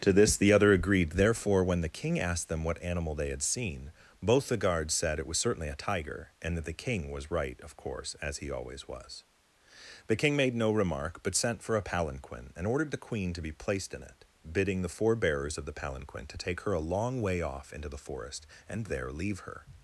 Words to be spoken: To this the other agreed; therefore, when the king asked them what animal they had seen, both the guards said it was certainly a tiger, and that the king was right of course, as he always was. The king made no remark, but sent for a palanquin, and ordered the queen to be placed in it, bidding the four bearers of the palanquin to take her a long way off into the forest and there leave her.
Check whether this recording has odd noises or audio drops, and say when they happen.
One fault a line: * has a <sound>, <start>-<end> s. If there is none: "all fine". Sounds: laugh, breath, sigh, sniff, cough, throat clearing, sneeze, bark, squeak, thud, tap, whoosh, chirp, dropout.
all fine